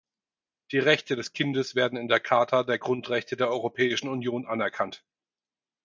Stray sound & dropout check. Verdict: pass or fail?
pass